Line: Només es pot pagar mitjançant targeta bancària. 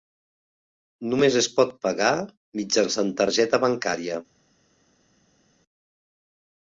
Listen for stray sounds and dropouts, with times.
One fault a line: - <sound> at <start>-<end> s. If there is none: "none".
none